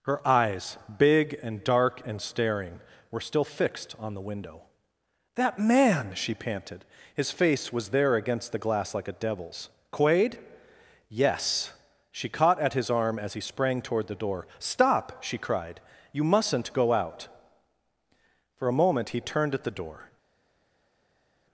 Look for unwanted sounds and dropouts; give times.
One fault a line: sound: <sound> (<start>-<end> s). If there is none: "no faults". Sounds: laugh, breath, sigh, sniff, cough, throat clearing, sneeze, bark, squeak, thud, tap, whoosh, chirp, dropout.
no faults